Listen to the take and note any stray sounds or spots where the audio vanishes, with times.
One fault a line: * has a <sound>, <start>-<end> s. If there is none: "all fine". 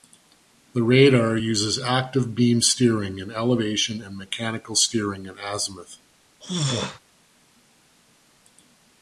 * has a throat clearing, 6.4-7.0 s